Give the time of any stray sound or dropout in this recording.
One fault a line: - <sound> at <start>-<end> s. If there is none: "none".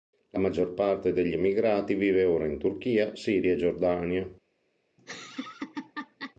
- laugh at 5.0-6.3 s